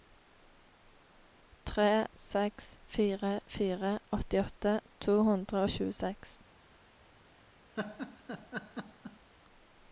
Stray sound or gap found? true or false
true